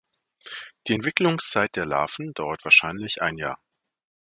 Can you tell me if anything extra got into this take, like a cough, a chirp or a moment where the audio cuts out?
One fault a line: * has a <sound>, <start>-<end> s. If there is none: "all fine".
all fine